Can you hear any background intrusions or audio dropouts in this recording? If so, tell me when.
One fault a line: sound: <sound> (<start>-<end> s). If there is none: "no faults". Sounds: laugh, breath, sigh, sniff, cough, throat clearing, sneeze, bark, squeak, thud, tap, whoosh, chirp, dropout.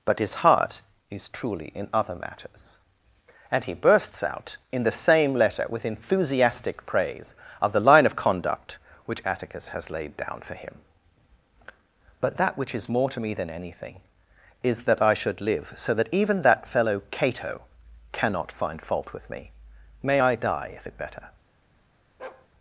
sound: bark (22.2-22.5 s)